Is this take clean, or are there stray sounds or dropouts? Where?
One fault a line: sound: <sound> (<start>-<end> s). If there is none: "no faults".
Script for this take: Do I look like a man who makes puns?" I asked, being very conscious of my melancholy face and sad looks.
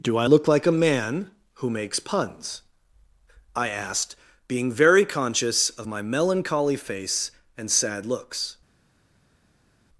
no faults